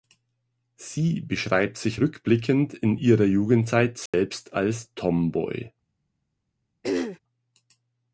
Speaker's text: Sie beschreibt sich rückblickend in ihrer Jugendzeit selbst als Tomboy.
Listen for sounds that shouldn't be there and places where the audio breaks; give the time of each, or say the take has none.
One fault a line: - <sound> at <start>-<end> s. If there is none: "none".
- dropout at 4.1-4.1 s
- throat clearing at 6.8-7.2 s